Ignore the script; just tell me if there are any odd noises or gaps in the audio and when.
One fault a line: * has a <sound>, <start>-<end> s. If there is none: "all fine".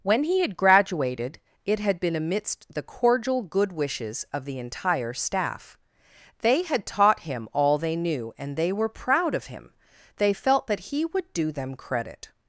all fine